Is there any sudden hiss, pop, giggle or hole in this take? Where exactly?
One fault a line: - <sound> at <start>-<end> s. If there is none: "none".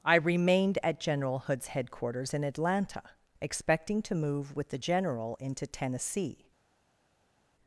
none